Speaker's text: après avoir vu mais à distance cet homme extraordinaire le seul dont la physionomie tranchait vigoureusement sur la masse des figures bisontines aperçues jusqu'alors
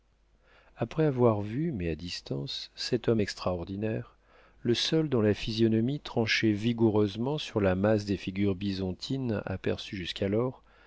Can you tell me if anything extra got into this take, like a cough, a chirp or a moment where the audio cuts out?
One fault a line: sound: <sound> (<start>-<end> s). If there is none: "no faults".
no faults